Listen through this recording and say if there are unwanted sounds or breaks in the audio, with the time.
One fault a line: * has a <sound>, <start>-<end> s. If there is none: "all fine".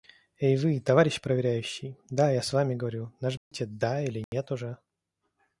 * has a dropout, 3.4-3.5 s
* has a dropout, 4.2-4.3 s